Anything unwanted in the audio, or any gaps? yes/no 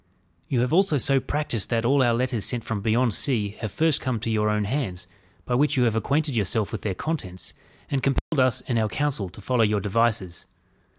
yes